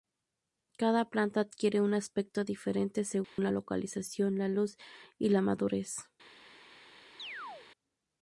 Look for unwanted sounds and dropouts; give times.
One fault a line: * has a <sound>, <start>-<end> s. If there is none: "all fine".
* has a dropout, 3.2-3.4 s
* has a chirp, 7.2-7.7 s